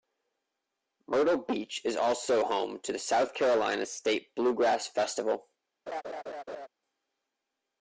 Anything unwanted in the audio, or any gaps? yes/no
yes